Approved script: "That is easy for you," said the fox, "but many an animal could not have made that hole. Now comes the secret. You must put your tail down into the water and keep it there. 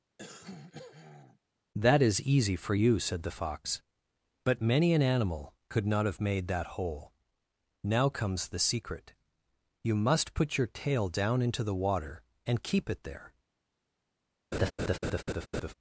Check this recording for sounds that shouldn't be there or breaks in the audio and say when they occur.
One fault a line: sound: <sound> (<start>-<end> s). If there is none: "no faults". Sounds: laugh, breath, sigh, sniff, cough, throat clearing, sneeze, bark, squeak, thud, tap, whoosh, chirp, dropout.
sound: throat clearing (0.2-1.4 s)
sound: laugh (14.5-15.7 s)